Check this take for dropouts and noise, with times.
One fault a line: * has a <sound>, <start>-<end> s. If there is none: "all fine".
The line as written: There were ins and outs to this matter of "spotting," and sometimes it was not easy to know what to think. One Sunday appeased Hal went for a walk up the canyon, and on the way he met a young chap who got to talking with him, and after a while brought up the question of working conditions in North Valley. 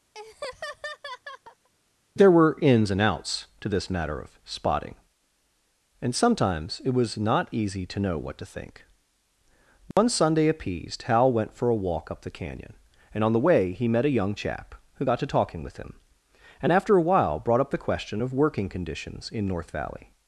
* has a laugh, 0.1-1.7 s
* has a dropout, 9.9-10.0 s